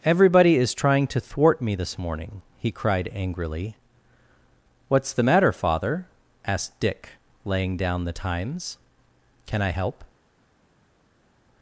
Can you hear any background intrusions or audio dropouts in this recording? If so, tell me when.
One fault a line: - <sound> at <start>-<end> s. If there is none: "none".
none